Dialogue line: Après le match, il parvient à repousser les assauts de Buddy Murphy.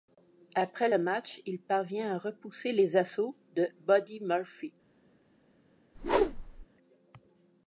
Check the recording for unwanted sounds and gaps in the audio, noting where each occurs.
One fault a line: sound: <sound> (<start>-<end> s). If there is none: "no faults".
sound: whoosh (5.9-6.7 s)